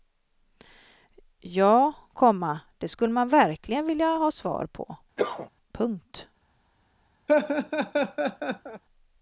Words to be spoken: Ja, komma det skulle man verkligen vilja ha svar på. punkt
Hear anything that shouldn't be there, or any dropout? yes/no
yes